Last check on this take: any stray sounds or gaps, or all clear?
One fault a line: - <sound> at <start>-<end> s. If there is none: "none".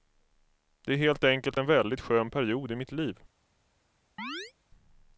- chirp at 4.2-4.5 s